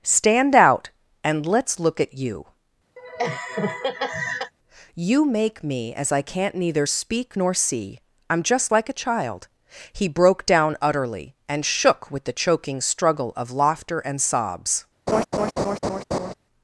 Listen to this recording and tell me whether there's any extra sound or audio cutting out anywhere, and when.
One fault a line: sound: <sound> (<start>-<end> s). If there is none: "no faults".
sound: laugh (3.0-4.5 s)
sound: laugh (15.1-16.3 s)